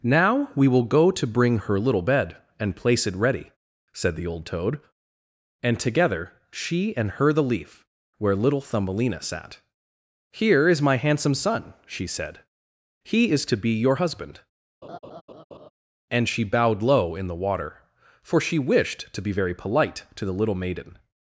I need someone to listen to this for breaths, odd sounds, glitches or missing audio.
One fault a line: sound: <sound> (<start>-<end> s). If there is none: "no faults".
sound: laugh (14.8-15.7 s)